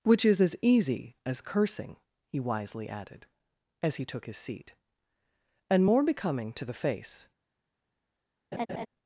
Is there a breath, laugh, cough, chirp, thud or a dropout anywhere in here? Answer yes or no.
yes